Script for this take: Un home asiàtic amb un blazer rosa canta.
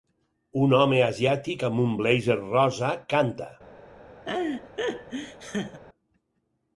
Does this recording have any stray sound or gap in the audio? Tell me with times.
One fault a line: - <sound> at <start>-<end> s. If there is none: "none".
- laugh at 4.3-5.8 s